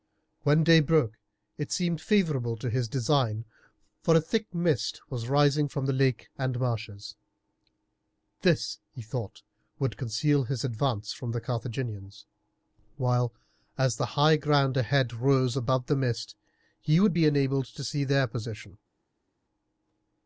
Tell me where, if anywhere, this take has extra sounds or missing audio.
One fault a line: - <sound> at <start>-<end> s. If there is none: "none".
none